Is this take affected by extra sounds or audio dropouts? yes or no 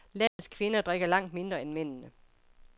yes